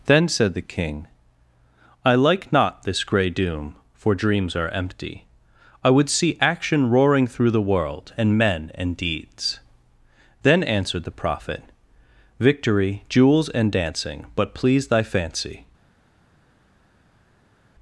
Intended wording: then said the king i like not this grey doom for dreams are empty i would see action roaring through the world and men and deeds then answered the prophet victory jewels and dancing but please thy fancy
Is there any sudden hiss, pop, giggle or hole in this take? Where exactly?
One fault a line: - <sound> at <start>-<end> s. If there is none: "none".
none